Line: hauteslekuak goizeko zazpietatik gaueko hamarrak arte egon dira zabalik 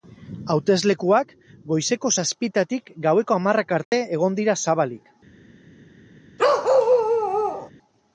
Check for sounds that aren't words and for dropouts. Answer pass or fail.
fail